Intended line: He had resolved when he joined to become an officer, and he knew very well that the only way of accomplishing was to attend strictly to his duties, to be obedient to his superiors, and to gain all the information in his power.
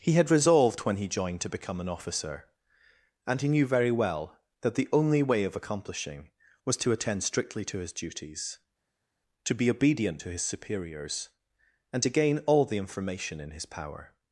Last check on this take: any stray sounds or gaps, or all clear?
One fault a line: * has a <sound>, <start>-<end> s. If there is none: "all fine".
all fine